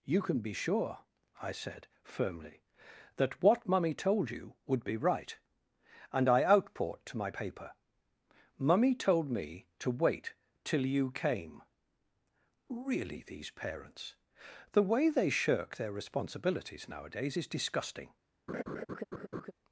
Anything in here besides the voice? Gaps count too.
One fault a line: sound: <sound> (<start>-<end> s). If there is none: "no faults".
sound: laugh (18.5-19.5 s)